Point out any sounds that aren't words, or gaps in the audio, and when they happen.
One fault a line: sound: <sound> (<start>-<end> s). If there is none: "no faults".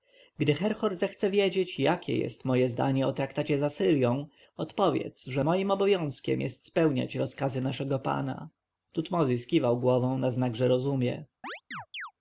sound: chirp (11.4-12.1 s)